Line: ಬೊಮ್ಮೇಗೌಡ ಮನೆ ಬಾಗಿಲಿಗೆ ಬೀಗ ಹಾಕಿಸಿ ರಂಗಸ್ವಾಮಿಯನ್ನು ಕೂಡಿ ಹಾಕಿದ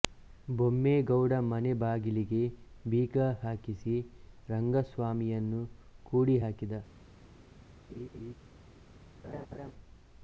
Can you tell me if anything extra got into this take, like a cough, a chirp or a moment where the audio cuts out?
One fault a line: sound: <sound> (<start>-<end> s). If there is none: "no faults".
sound: laugh (7.9-8.3 s)
sound: laugh (9.2-9.7 s)